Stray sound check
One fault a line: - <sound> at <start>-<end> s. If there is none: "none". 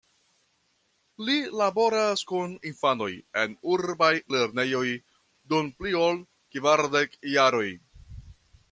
none